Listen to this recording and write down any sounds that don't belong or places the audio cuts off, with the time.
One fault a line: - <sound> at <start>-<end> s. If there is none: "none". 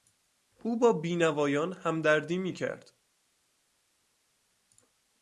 none